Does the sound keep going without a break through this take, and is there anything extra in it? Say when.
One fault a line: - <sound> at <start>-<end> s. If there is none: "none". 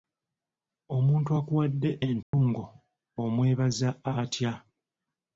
- dropout at 2.2-2.3 s